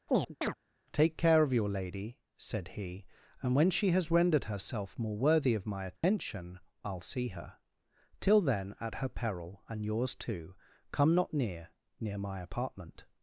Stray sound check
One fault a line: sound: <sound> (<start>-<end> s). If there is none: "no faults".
sound: chirp (0.1-0.5 s)
sound: dropout (6.0-6.0 s)